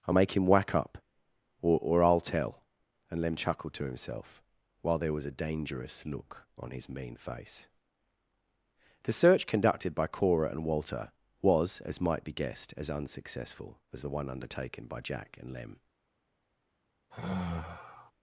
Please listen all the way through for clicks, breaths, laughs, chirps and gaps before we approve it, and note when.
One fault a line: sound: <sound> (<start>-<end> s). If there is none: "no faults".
sound: sigh (17.1-18.1 s)